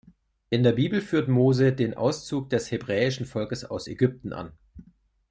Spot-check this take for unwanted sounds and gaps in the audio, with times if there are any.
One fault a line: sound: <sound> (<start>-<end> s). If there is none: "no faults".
no faults